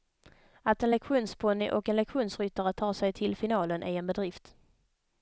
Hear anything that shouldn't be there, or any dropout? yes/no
no